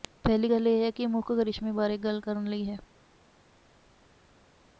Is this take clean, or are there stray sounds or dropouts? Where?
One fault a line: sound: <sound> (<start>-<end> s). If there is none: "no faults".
no faults